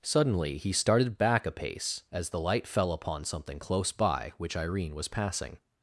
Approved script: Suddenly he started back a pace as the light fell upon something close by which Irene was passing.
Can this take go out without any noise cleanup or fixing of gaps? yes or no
yes